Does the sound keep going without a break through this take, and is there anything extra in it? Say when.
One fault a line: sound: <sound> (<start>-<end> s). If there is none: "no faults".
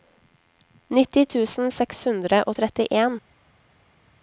no faults